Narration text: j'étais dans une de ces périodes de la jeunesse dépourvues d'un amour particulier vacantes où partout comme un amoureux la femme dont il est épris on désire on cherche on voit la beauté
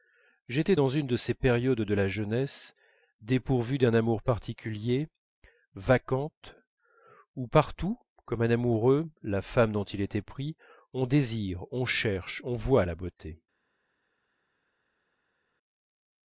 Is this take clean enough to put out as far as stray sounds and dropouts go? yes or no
yes